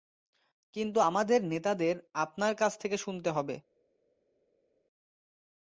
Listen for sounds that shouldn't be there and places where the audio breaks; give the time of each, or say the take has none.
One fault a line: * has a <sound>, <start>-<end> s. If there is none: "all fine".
all fine